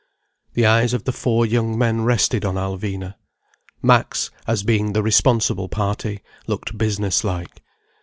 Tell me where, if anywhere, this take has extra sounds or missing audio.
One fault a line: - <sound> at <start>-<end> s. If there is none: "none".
none